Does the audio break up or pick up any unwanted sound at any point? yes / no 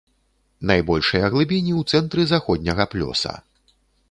no